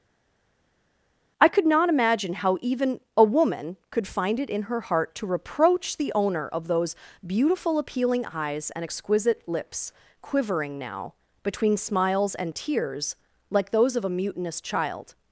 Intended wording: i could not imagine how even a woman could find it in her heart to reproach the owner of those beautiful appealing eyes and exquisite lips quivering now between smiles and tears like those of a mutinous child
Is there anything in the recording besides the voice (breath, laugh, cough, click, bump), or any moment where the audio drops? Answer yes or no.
no